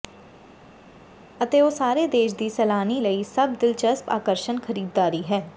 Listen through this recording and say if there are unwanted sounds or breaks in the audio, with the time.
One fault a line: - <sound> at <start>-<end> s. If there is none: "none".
none